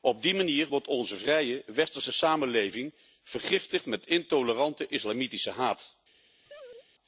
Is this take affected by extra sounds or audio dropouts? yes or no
yes